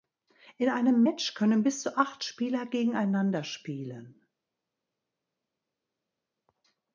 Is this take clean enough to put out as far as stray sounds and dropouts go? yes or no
yes